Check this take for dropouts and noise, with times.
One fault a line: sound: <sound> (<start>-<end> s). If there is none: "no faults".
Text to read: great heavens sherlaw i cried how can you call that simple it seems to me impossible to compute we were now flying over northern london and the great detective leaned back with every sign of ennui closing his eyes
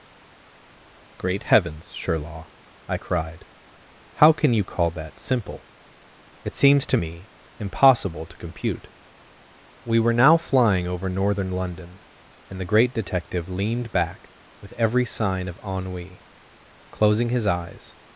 no faults